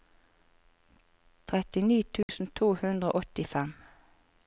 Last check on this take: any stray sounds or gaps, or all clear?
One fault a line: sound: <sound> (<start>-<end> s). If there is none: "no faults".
sound: dropout (2.2-2.3 s)